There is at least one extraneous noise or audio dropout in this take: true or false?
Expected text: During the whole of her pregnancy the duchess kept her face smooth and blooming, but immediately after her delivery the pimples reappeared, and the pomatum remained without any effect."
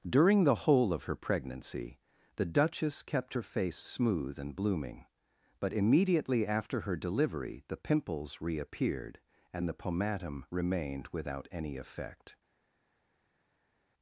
false